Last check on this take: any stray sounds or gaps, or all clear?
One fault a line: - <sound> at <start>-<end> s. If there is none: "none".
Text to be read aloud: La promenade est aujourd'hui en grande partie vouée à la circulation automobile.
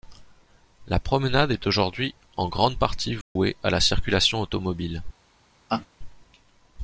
- dropout at 3.2-3.4 s
- laugh at 5.7-5.9 s